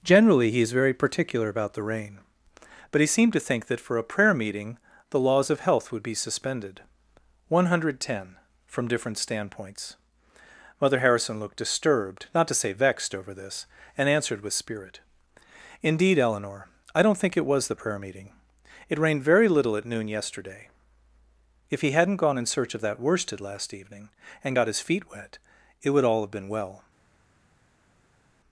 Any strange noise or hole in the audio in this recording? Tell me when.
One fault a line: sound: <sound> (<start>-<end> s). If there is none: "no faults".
no faults